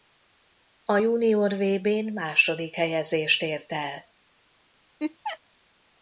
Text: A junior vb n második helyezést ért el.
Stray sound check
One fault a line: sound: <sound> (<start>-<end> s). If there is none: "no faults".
sound: laugh (5.0-5.4 s)